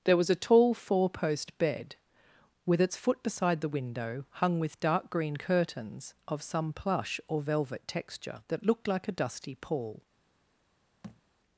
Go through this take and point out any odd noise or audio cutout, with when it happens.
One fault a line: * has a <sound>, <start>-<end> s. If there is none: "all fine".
* has a thud, 11.0-11.2 s